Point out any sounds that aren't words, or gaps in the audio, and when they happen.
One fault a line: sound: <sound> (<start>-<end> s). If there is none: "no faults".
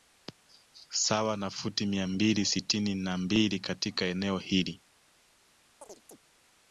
sound: chirp (5.8-6.2 s)